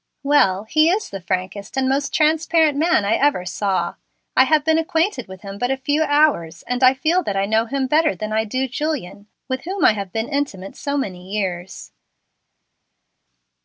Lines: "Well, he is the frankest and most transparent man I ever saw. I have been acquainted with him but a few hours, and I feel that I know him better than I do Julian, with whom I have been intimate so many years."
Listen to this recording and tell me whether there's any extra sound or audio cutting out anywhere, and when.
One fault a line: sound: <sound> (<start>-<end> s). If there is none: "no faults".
no faults